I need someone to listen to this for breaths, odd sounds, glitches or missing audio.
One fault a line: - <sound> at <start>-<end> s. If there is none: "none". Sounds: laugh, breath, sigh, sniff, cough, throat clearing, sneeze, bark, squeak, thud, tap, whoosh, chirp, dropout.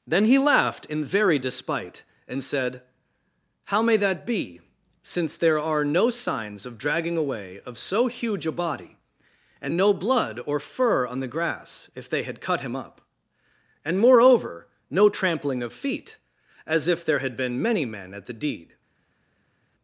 none